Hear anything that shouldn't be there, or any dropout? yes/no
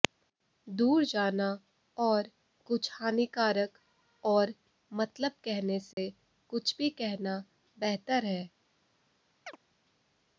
yes